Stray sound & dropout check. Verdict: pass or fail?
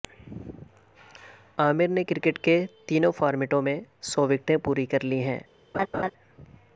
fail